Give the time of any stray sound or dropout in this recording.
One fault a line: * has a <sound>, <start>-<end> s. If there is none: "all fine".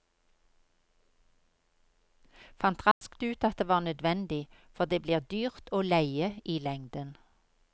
* has a dropout, 2.9-3.0 s